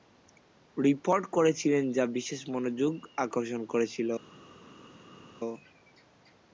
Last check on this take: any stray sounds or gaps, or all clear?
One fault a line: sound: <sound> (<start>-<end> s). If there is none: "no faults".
no faults